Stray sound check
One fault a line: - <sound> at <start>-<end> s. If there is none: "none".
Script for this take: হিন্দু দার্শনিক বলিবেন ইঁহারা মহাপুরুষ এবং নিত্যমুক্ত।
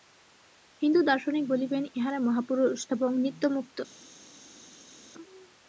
none